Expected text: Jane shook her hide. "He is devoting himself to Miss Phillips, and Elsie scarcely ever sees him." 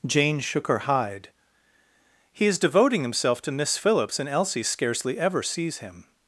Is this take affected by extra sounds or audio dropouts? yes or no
no